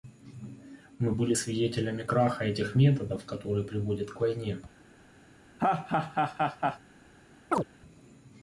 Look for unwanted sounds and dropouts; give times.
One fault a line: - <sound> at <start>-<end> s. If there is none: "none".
- laugh at 5.6-6.8 s
- chirp at 7.5-7.6 s